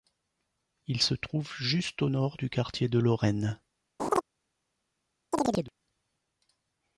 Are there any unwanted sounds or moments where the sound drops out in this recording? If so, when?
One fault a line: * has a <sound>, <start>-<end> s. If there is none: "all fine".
* has a laugh, 4.0-4.2 s
* has a chirp, 5.3-5.7 s